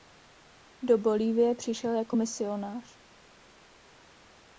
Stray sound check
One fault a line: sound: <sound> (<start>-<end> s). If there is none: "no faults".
no faults